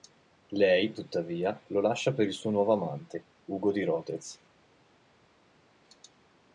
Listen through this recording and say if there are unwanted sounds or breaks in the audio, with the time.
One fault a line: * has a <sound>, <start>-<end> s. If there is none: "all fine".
all fine